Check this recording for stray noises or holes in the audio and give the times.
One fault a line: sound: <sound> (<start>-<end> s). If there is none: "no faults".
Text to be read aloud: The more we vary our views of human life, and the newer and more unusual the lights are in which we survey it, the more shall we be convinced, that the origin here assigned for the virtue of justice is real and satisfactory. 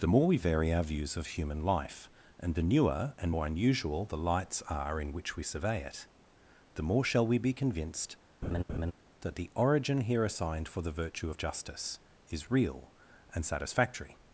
sound: laugh (8.4-8.9 s)